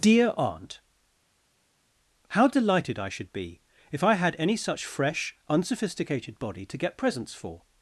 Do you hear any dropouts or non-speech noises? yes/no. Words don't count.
no